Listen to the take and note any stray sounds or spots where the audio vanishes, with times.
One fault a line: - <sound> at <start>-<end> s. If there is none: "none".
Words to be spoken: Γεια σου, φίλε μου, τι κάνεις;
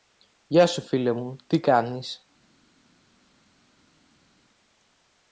none